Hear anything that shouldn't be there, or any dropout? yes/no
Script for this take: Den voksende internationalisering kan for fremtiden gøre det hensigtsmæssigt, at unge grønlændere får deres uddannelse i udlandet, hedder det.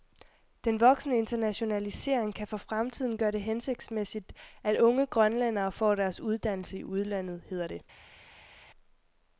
no